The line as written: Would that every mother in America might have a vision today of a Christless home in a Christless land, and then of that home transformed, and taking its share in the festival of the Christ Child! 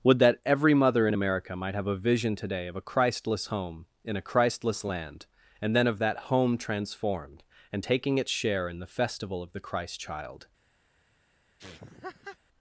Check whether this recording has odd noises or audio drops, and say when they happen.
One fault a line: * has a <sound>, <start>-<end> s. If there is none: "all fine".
* has a laugh, 11.6-12.4 s